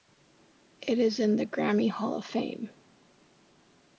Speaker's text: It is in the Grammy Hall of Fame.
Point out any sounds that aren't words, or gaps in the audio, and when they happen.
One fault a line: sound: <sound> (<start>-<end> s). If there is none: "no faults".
no faults